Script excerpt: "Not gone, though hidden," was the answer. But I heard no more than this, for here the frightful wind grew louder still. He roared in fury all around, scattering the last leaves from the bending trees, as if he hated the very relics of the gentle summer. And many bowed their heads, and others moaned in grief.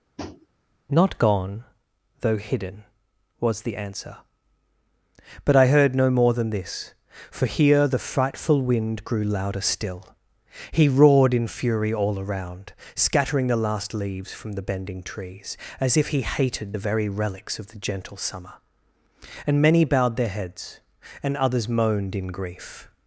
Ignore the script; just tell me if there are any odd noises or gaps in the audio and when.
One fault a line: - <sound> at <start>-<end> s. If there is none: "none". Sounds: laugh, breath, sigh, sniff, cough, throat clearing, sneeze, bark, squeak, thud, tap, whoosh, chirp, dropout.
- tap at 0.2-0.5 s